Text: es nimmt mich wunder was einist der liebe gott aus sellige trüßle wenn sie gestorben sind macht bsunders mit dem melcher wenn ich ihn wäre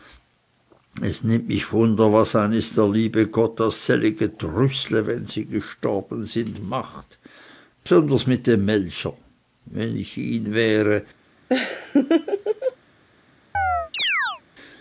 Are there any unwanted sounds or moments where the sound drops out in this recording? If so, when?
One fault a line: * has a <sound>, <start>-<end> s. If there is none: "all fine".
* has a laugh, 11.5-12.8 s
* has a chirp, 13.5-14.4 s